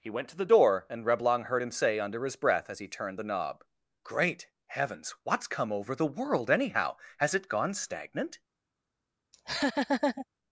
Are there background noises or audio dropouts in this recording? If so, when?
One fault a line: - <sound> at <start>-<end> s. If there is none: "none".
- laugh at 9.3-10.3 s